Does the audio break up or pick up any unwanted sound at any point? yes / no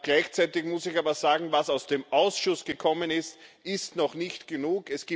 no